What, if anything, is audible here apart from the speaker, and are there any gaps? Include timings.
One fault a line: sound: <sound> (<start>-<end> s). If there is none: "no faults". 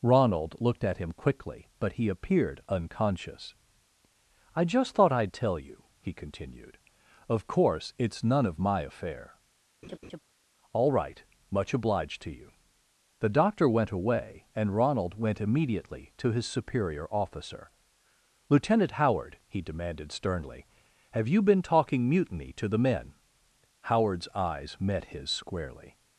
sound: laugh (9.8-10.2 s)